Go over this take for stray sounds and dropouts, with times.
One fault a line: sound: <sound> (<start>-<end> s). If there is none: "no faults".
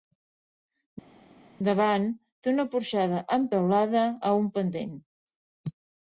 no faults